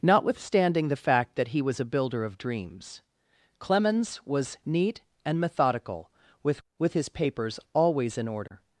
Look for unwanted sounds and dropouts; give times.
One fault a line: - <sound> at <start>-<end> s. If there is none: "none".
none